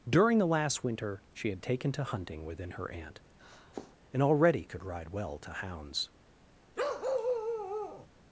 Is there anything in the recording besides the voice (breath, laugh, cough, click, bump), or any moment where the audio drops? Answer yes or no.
yes